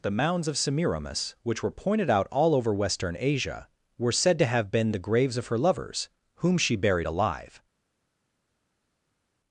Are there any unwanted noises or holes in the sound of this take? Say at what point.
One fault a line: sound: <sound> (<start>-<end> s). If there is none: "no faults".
no faults